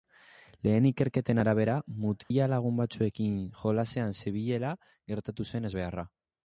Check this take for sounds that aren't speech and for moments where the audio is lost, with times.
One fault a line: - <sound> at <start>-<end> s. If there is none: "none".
- dropout at 2.2-2.3 s